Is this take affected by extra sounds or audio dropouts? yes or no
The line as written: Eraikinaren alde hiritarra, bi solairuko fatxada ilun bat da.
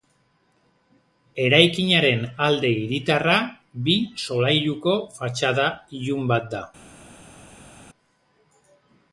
no